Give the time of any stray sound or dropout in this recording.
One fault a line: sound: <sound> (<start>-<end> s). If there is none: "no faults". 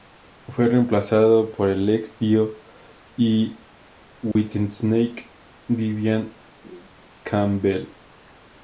sound: dropout (4.3-4.4 s)